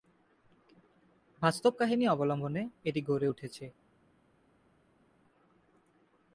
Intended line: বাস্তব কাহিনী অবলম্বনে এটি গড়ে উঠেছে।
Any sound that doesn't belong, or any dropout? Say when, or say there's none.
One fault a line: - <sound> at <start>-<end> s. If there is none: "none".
none